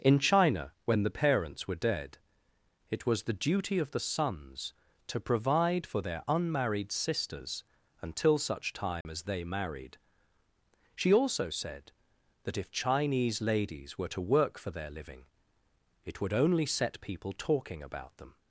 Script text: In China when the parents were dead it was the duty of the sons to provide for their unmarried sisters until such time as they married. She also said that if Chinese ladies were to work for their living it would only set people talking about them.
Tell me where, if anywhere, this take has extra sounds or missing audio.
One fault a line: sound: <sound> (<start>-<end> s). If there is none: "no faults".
sound: dropout (9.0-9.1 s)